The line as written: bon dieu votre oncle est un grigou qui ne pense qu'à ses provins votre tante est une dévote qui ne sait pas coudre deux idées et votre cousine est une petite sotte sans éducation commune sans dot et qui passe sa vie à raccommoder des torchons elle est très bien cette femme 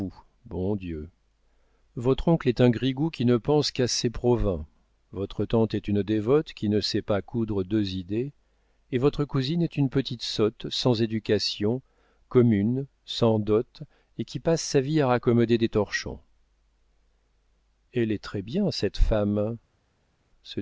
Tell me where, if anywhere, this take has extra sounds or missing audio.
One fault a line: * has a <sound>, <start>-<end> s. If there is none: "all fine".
all fine